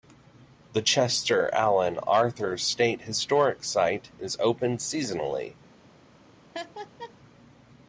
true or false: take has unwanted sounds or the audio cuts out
true